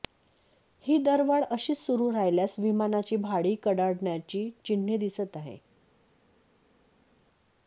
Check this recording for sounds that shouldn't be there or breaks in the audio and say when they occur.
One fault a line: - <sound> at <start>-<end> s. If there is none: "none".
none